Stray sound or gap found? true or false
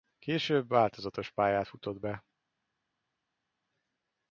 false